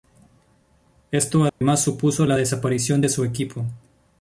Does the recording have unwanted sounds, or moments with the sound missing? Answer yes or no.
yes